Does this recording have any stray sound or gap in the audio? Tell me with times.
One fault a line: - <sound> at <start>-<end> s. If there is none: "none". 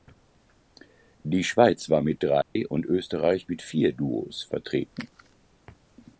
- dropout at 2.4-2.6 s